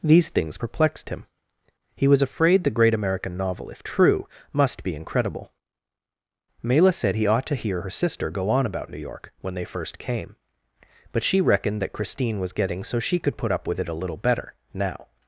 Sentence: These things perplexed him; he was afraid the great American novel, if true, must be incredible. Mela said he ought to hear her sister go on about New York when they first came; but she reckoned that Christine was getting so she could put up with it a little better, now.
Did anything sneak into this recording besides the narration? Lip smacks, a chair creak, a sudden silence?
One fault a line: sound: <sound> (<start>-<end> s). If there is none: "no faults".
no faults